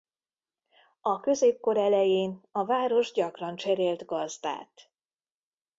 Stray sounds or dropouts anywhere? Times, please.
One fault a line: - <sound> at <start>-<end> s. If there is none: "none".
none